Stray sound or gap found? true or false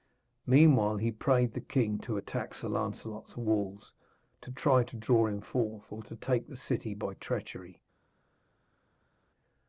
false